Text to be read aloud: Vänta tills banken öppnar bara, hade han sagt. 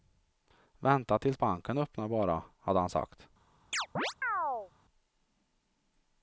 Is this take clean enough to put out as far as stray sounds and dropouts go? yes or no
no